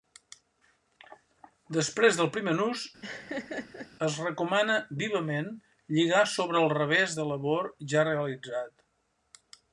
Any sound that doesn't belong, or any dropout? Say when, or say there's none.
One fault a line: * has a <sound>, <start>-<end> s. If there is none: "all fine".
* has a laugh, 3.0-3.9 s